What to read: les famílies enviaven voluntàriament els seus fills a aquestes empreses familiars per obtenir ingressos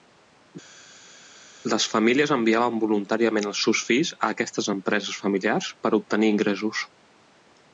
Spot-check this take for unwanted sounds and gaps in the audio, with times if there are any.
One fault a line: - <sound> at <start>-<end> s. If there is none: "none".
none